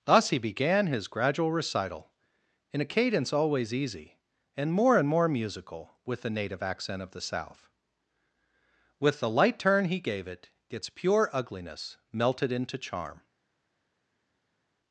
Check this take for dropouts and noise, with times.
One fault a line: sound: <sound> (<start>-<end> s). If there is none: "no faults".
no faults